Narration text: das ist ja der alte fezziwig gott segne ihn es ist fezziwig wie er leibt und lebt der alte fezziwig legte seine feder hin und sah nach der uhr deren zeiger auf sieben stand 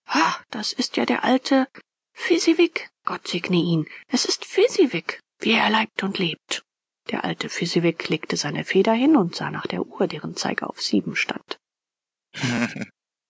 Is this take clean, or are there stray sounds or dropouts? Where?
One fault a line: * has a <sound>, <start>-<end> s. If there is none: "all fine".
* has a laugh, 12.3-12.9 s